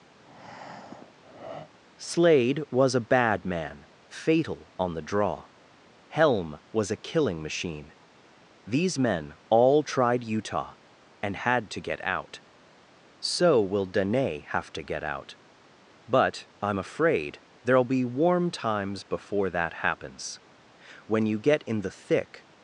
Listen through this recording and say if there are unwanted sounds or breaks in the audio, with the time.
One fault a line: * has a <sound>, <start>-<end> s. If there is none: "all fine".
* has a breath, 0.1-1.7 s